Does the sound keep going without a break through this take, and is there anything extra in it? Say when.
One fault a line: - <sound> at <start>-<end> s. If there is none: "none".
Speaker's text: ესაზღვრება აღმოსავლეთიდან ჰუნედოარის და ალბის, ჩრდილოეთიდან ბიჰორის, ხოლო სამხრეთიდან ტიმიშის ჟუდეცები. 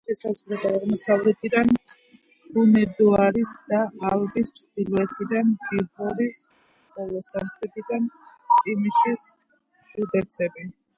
none